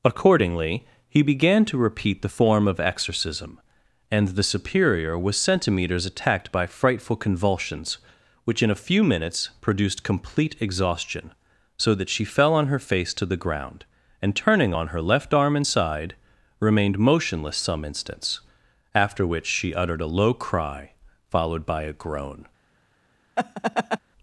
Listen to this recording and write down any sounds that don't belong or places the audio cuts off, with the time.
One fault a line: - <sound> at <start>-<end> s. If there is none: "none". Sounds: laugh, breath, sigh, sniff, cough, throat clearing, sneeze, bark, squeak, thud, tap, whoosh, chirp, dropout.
- laugh at 23.4-24.0 s